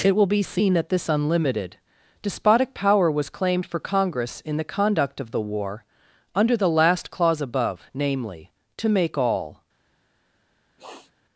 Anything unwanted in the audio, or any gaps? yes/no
yes